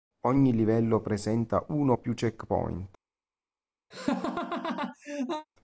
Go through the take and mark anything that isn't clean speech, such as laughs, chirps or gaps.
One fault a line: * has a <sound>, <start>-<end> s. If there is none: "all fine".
* has a laugh, 3.9-5.5 s